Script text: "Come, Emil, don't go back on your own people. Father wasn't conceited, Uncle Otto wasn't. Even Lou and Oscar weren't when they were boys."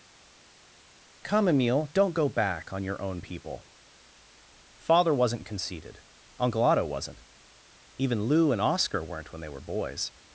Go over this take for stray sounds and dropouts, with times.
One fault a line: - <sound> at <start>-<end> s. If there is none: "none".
none